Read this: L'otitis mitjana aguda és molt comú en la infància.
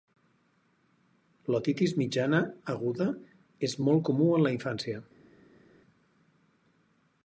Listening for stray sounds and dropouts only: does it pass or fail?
pass